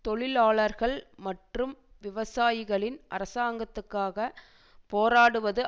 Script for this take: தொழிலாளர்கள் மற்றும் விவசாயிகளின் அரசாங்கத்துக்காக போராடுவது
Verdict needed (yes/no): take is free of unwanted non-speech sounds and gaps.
yes